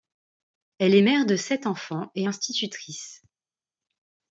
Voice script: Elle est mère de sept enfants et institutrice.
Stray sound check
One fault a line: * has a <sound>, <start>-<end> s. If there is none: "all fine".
all fine